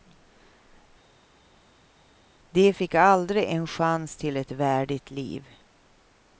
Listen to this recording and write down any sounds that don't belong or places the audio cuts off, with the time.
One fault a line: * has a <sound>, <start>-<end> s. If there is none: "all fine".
all fine